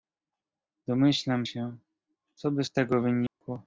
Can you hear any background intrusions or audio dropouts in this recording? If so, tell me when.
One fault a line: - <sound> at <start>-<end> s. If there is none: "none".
- dropout at 3.3-3.4 s